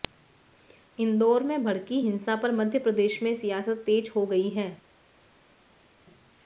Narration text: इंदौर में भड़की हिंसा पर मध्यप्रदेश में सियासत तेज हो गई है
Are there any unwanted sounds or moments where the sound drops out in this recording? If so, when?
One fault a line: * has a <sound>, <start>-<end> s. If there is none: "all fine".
all fine